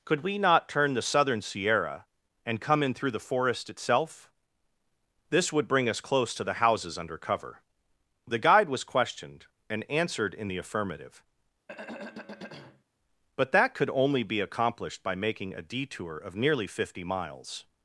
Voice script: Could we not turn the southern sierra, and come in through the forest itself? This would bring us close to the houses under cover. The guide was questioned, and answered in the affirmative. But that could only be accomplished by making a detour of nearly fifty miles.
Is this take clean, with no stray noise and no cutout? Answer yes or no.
no